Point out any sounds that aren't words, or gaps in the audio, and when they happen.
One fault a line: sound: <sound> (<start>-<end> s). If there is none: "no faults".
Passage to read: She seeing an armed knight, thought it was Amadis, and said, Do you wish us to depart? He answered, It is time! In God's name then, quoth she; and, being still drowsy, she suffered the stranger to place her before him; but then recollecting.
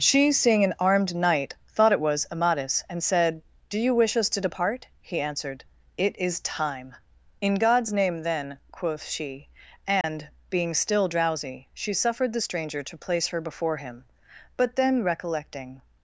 sound: dropout (10.0-10.0 s)